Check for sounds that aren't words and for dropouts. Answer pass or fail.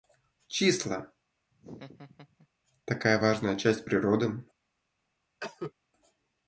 fail